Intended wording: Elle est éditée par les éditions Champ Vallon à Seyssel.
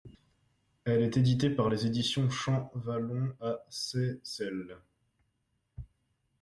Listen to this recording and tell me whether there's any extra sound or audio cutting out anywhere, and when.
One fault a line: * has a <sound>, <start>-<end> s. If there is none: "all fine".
all fine